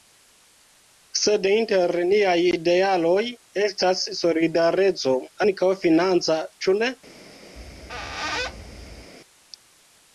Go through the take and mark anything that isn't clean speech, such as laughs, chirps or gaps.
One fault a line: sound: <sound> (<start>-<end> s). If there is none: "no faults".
sound: squeak (7.6-9.1 s)